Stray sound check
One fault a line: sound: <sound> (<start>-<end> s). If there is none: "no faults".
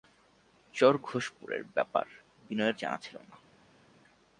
no faults